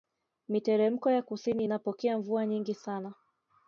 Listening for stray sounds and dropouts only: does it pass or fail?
pass